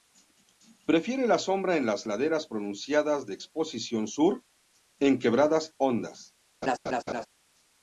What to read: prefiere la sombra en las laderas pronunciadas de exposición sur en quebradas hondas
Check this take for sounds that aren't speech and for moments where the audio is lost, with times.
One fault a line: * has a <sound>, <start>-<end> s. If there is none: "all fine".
* has a laugh, 6.6-7.3 s